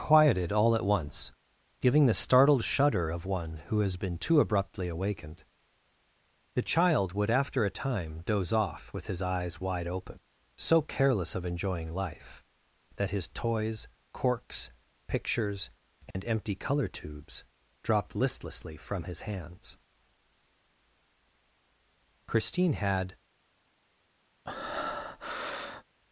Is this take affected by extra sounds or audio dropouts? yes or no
yes